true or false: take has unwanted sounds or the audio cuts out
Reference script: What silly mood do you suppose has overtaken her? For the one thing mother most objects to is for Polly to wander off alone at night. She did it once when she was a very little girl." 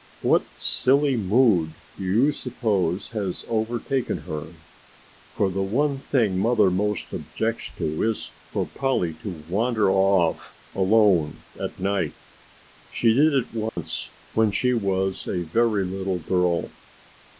true